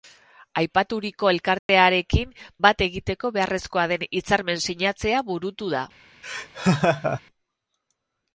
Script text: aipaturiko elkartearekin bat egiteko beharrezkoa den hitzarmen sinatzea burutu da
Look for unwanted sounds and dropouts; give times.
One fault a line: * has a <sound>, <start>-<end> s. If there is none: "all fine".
* has a dropout, 1.6-1.7 s
* has a laugh, 6.2-7.2 s